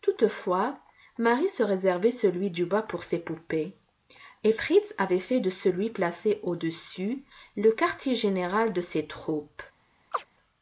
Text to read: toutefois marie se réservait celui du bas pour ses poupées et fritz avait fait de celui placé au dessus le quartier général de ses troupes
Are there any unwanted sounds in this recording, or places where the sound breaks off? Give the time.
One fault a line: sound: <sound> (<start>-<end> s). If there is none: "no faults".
sound: chirp (10.1-10.3 s)